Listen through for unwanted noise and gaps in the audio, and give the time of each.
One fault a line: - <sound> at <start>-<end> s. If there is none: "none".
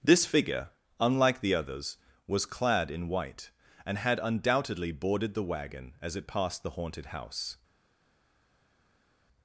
none